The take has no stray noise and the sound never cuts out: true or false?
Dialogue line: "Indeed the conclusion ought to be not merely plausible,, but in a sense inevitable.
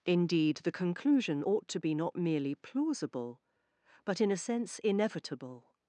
true